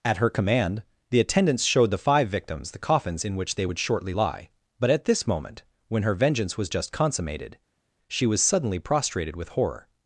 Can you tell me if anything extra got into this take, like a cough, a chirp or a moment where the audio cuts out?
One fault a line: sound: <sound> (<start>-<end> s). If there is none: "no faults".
no faults